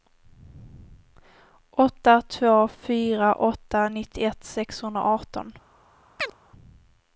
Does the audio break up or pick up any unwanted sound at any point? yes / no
yes